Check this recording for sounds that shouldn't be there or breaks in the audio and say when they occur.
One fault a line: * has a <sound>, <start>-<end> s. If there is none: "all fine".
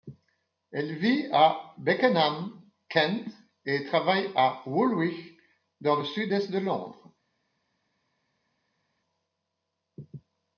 all fine